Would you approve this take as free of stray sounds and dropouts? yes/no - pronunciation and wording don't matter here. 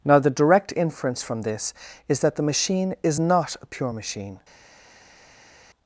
yes